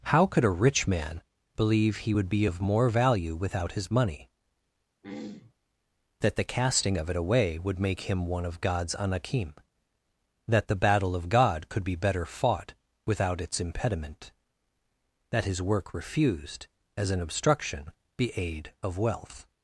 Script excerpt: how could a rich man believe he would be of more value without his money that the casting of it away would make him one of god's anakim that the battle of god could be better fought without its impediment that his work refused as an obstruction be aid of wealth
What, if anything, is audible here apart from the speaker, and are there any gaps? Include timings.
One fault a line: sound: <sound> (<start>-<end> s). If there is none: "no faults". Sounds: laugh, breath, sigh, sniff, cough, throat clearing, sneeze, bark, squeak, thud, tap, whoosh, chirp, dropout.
sound: throat clearing (5.0-5.5 s)